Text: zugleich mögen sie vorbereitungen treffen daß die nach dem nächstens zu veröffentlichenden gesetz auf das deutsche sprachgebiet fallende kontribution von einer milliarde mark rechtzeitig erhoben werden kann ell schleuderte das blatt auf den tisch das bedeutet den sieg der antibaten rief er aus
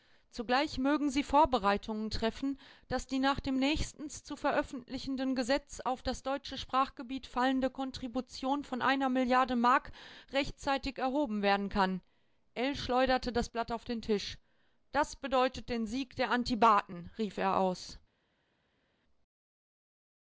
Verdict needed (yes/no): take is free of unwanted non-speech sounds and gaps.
yes